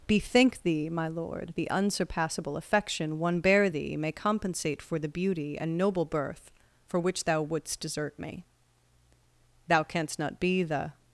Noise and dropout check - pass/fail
pass